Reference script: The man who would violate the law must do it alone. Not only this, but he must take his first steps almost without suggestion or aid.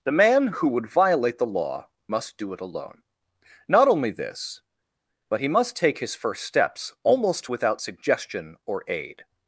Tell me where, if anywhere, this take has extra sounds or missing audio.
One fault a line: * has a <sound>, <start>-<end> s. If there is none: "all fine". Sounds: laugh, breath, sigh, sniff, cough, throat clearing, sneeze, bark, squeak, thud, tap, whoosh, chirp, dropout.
all fine